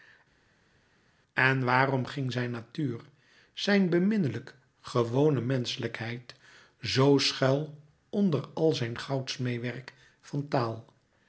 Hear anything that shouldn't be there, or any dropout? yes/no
no